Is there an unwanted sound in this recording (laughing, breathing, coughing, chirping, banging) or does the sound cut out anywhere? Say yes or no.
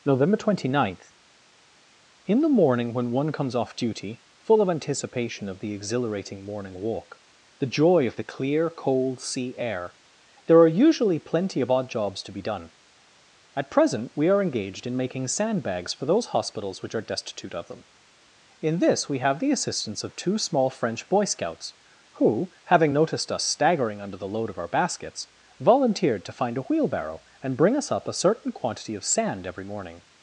no